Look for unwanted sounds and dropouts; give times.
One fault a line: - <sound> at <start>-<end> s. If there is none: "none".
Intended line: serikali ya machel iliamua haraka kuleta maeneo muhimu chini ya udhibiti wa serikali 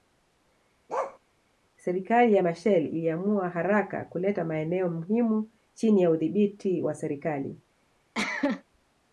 - bark at 0.9-1.2 s
- cough at 8.1-8.6 s